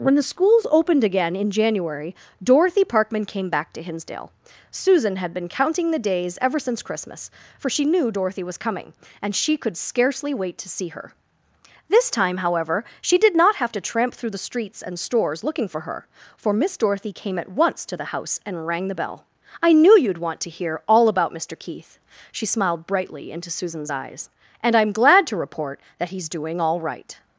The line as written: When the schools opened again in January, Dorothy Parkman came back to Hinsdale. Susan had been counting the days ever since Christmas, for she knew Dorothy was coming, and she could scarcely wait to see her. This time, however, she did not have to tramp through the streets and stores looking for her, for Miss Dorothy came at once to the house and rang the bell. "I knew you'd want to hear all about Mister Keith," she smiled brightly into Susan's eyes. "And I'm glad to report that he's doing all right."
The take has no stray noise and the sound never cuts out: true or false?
true